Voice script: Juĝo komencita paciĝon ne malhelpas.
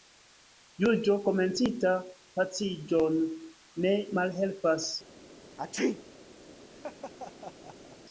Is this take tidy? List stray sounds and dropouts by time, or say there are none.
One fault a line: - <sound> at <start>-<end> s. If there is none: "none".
- sneeze at 5.6-6.0 s
- laugh at 6.7-8.0 s